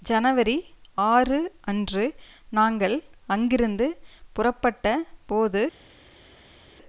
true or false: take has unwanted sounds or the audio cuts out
false